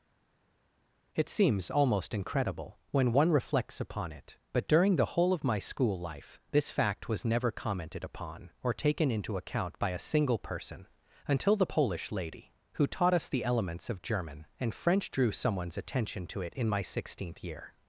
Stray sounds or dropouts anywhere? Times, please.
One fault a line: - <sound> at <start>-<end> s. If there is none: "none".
none